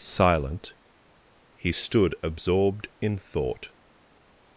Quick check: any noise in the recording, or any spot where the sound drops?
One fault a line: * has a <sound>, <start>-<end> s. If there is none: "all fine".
all fine